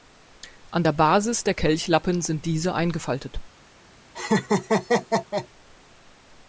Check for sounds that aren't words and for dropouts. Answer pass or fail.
fail